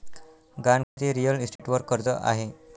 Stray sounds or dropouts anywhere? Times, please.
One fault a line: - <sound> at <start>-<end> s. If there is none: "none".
- dropout at 0.8-1.0 s
- dropout at 1.6-1.6 s